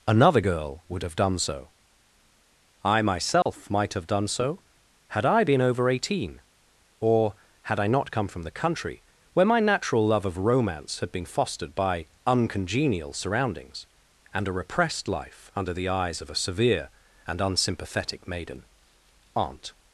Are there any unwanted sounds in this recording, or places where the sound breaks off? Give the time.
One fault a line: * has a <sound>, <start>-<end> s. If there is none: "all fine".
* has a dropout, 3.4-3.5 s